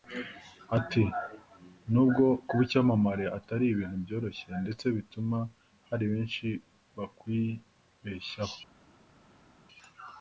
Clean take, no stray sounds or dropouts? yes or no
yes